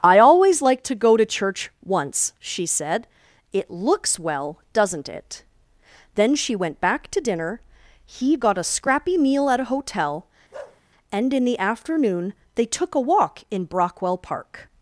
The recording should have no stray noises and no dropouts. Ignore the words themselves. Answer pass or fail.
fail